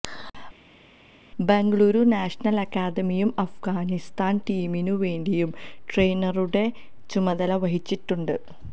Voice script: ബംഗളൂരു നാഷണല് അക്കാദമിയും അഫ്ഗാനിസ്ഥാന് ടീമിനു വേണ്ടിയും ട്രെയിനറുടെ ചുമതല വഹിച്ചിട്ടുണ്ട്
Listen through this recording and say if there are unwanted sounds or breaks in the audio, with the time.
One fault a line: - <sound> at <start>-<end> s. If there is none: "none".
none